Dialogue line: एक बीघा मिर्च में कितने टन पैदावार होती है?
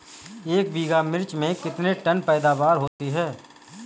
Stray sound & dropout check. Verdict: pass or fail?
fail